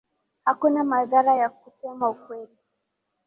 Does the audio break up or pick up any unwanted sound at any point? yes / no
no